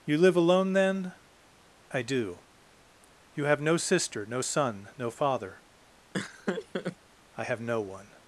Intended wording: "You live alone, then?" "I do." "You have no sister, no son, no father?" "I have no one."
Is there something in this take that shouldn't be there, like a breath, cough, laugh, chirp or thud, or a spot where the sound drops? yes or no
yes